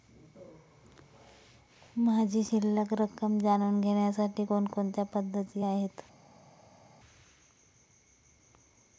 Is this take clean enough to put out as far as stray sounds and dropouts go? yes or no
yes